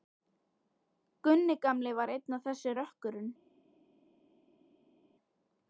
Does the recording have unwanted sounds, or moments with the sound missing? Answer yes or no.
no